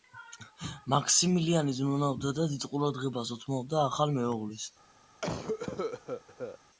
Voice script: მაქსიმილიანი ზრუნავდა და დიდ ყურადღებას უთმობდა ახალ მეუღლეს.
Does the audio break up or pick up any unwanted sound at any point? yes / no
yes